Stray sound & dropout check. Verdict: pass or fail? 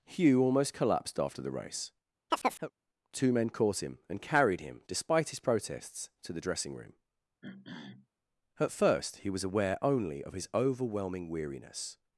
fail